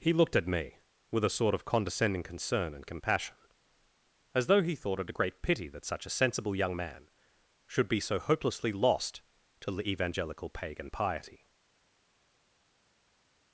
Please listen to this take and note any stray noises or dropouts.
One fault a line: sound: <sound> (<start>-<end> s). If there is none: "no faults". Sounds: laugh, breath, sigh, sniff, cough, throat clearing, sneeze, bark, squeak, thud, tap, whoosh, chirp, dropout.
no faults